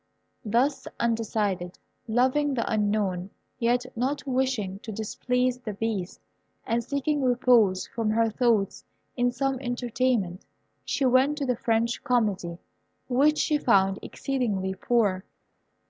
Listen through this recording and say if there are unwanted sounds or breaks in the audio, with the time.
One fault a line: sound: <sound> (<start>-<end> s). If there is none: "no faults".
no faults